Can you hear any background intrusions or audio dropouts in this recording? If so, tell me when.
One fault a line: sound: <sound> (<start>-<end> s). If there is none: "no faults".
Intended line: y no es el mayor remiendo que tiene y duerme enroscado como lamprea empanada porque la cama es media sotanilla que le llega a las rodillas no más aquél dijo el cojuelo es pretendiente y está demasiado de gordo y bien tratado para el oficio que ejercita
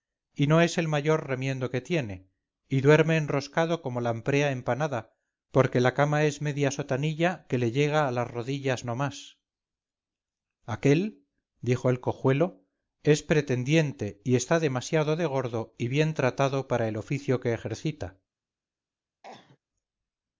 sound: cough (19.2-19.6 s)